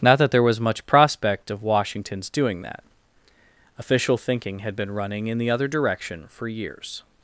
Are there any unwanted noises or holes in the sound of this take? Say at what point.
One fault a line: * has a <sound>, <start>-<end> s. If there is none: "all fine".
all fine